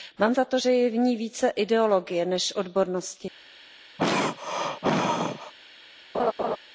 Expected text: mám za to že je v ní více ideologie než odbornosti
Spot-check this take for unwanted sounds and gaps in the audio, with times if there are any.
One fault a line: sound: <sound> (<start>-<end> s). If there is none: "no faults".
sound: throat clearing (4.0-5.5 s)
sound: laugh (6.1-6.6 s)